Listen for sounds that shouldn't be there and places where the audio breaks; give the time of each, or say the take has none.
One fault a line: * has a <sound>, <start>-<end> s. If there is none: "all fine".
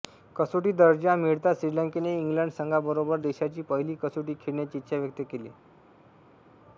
all fine